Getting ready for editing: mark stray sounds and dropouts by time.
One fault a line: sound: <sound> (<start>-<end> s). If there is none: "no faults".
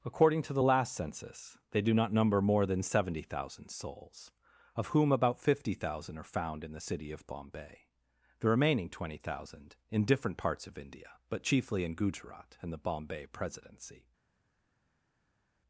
no faults